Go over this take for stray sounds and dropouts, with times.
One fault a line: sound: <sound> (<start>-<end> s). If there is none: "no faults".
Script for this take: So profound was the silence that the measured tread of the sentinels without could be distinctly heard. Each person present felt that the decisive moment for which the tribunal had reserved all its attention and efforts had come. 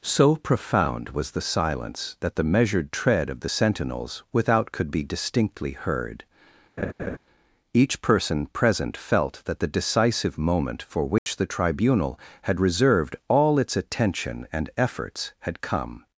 sound: laugh (6.8-7.2 s)
sound: dropout (11.2-11.3 s)